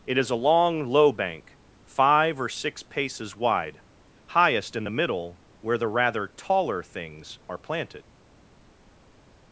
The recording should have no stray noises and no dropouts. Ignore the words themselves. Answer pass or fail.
pass